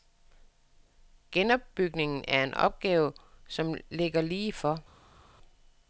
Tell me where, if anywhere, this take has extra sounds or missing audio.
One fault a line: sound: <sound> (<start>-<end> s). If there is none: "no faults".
no faults